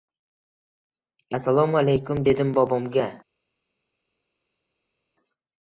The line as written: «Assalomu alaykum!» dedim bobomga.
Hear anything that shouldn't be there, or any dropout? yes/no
no